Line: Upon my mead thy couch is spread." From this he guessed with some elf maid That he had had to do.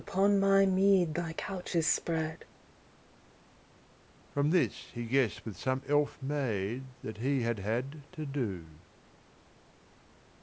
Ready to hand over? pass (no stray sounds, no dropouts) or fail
pass